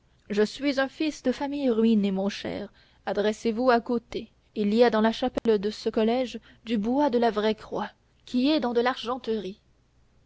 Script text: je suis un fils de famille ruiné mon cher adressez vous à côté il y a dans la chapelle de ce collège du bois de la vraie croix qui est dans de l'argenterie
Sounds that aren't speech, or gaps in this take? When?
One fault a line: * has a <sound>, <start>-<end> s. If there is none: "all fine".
* has a dropout, 5.4-5.5 s